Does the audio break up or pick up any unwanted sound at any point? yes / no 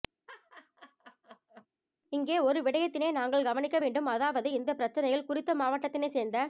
yes